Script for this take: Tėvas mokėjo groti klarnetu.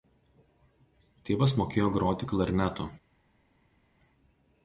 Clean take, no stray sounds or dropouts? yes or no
yes